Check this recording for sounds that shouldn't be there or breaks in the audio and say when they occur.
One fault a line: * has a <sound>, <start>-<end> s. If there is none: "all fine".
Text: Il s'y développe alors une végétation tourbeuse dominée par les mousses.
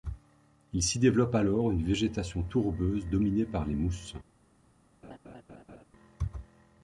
* has a laugh, 5.0-5.8 s